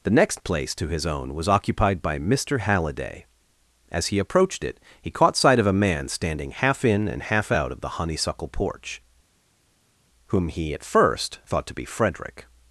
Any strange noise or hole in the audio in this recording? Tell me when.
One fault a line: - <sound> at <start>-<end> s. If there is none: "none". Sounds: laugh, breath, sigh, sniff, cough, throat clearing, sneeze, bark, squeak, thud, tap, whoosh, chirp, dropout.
none